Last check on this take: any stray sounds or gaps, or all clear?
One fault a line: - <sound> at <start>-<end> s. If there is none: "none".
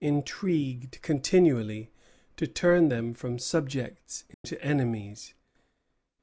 - dropout at 4.3-4.4 s